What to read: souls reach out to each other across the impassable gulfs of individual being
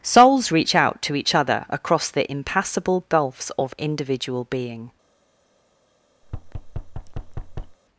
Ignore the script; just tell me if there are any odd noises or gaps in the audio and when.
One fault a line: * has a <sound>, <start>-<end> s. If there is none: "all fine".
* has a thud, 6.2-7.8 s